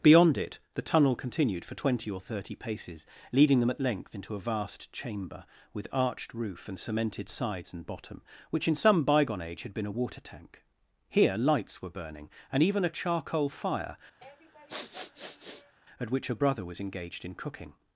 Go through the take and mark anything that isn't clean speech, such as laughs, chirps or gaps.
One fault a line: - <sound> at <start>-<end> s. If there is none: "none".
- sniff at 14.2-15.8 s